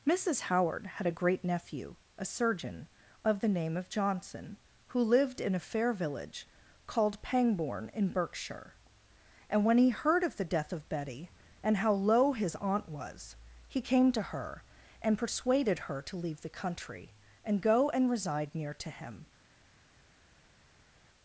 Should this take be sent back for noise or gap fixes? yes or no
no